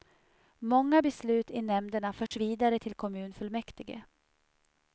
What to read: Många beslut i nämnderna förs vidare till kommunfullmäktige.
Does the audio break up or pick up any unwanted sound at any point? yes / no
yes